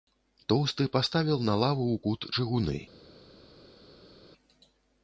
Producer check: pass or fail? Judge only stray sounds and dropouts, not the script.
pass